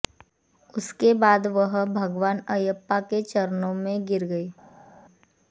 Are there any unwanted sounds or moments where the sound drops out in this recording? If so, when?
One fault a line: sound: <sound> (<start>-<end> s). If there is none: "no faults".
no faults